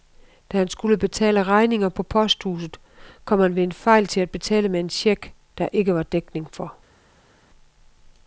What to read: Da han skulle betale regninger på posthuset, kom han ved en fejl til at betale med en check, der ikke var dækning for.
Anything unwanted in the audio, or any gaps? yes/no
no